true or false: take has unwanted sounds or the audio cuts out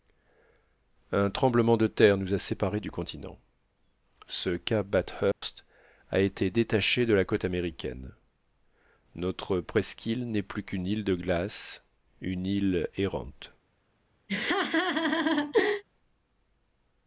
true